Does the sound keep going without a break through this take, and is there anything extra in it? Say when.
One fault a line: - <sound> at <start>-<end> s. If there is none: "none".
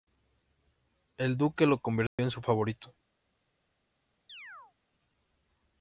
- dropout at 2.1-2.2 s
- chirp at 4.3-4.7 s